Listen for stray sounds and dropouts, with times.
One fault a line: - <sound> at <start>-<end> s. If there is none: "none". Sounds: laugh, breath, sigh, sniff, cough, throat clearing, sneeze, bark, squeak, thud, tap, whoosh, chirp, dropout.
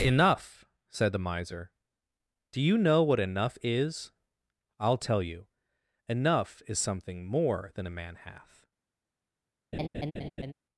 - laugh at 9.7-10.5 s